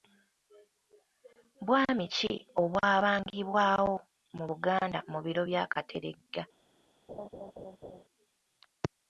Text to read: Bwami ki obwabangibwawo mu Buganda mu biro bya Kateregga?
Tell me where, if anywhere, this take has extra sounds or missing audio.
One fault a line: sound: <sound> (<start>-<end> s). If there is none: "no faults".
sound: laugh (7.1-8.0 s)